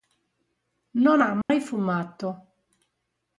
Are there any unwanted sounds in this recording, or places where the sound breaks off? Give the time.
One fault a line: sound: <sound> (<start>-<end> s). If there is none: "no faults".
sound: dropout (1.4-1.5 s)